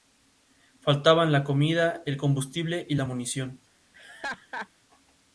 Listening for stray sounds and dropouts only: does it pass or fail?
fail